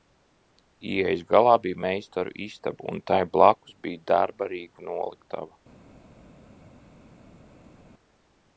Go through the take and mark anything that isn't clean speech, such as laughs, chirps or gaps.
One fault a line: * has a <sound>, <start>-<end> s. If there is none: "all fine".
all fine